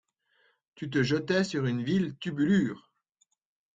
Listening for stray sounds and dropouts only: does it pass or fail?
pass